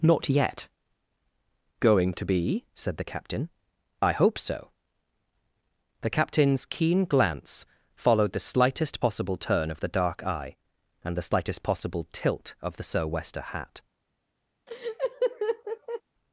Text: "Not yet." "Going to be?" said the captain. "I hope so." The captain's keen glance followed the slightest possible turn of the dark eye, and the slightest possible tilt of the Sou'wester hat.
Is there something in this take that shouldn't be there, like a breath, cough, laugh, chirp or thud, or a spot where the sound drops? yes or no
yes